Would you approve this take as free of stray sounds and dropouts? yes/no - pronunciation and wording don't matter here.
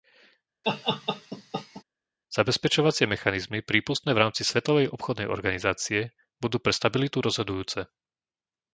no